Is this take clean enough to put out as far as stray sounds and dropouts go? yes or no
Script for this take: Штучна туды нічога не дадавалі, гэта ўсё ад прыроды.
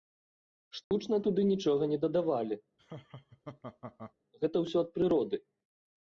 no